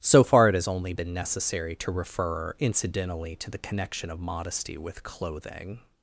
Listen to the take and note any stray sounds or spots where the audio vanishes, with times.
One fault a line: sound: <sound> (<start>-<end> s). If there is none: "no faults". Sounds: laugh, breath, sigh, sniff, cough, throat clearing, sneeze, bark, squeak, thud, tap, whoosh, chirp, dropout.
no faults